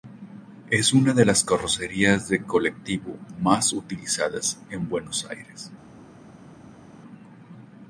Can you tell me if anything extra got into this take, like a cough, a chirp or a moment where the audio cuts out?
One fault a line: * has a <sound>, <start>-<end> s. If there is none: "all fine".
all fine